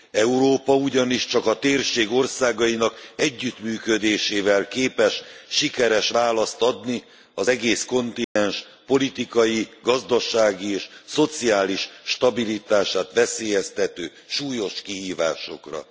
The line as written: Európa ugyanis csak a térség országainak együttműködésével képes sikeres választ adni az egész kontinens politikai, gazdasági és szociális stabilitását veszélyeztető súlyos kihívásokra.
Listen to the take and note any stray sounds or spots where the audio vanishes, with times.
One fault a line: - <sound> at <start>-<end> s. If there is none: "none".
- dropout at 8.2-8.4 s